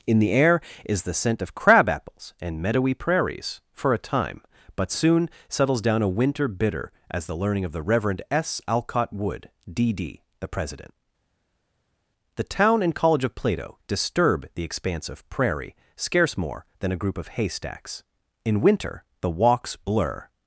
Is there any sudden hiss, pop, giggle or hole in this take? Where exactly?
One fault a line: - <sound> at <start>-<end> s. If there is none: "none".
none